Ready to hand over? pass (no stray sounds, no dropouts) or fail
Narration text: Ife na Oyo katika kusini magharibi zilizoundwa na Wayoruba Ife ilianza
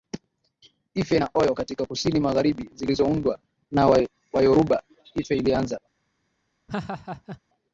fail